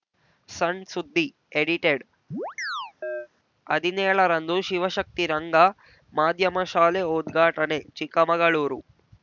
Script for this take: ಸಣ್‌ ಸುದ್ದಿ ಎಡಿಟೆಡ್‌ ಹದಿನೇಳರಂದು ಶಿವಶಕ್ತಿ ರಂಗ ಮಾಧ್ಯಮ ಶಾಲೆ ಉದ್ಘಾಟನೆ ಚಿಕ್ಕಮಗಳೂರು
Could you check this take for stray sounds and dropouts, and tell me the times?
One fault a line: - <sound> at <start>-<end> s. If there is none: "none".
- chirp at 2.3-3.3 s